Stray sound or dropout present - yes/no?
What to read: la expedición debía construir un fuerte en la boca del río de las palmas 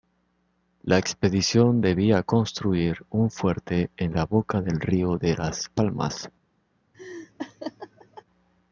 yes